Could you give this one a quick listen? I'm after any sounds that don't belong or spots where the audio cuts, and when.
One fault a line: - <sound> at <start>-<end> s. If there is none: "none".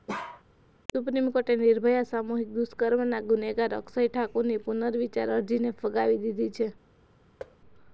- bark at 0.1-0.4 s
- thud at 7.4-7.6 s